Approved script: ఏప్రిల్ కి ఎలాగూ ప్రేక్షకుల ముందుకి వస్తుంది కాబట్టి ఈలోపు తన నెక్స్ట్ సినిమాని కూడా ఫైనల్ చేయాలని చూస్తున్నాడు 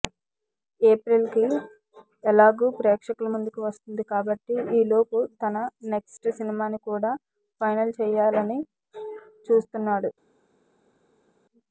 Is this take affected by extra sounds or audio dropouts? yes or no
no